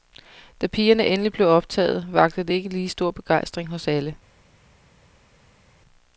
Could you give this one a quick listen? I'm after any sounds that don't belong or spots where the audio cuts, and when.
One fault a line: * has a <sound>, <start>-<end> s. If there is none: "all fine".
all fine